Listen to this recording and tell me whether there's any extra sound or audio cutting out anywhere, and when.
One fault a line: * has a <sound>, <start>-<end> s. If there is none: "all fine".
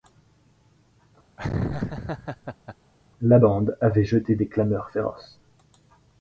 * has a laugh, 1.4-2.8 s